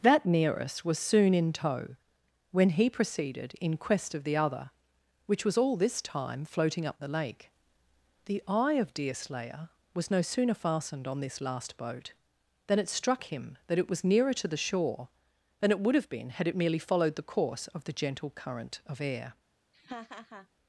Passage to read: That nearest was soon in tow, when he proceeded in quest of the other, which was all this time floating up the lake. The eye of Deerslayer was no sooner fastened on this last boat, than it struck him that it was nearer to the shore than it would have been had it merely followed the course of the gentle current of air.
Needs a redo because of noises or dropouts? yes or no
yes